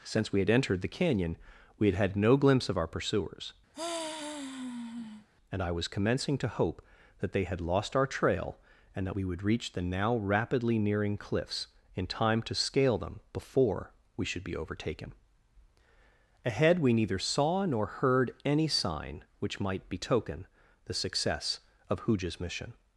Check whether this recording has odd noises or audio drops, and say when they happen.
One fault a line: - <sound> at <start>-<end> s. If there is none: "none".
- sigh at 3.7-5.3 s